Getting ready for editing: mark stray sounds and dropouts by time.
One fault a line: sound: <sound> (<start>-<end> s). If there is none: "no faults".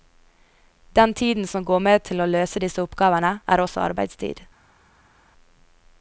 no faults